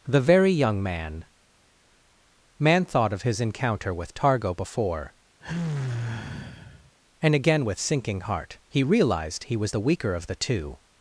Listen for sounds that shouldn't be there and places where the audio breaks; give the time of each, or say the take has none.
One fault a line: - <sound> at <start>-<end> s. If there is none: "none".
- sigh at 5.4-6.9 s